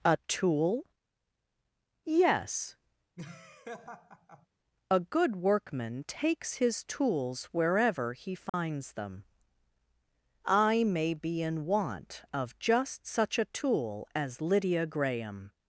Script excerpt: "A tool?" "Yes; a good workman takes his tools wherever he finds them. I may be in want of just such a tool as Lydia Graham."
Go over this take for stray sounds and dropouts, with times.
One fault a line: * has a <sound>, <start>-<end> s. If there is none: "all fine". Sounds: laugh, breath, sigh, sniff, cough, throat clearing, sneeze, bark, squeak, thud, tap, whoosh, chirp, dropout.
* has a laugh, 3.2-4.5 s
* has a dropout, 8.5-8.5 s